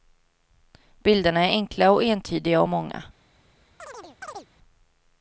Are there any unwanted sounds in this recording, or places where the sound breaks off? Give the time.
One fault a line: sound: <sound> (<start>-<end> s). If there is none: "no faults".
sound: chirp (3.8-4.5 s)